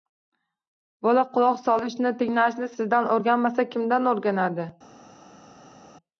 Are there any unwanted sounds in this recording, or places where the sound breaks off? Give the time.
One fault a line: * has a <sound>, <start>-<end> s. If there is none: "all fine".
all fine